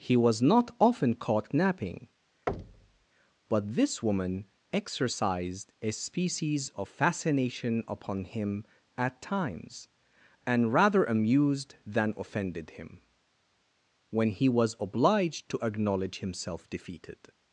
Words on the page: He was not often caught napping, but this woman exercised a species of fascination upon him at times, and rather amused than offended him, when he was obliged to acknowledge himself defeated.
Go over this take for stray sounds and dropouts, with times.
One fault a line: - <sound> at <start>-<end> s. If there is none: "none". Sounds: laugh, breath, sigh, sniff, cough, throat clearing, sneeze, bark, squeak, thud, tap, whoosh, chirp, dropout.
- thud at 2.5-3.1 s